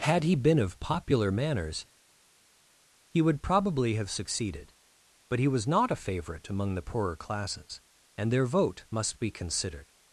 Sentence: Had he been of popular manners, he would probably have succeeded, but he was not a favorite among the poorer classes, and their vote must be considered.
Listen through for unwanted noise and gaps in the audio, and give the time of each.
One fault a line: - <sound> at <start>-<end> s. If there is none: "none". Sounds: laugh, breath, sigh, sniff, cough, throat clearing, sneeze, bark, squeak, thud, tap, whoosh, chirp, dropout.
none